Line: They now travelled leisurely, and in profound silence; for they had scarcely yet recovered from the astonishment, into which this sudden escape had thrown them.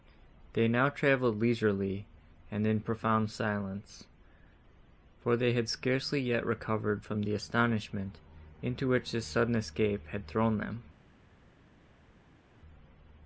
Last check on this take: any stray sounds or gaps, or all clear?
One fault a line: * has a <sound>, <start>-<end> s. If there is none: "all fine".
all fine